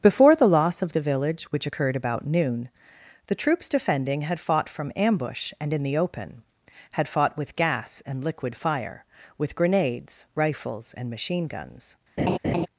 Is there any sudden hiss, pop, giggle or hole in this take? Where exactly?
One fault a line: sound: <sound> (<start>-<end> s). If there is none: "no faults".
sound: laugh (12.2-12.7 s)